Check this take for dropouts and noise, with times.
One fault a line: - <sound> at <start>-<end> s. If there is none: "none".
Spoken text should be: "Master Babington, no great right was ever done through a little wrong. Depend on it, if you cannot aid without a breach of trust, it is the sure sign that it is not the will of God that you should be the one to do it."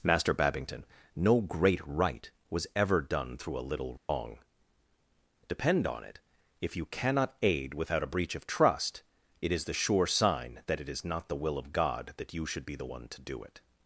- dropout at 4.0-4.1 s